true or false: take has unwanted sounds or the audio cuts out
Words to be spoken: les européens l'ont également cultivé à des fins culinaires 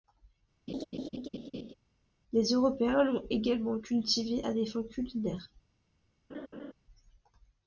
true